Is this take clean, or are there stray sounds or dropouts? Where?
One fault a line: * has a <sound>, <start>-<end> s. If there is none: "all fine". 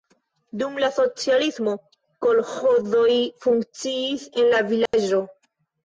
* has a dropout, 4.9-4.9 s